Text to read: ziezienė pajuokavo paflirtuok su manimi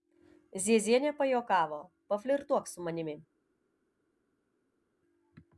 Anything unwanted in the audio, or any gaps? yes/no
no